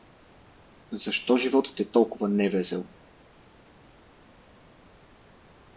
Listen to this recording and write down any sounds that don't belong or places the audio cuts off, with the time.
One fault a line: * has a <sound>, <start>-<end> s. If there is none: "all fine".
all fine